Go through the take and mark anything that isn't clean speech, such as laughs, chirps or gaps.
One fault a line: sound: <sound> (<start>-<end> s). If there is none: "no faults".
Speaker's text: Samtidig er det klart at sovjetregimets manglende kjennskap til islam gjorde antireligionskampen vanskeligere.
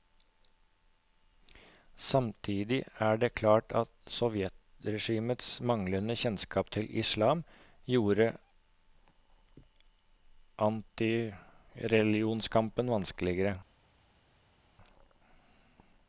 no faults